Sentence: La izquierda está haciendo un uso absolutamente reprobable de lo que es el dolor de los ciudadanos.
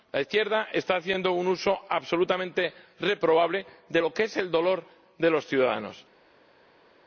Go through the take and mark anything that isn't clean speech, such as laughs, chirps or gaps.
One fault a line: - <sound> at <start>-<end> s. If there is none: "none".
none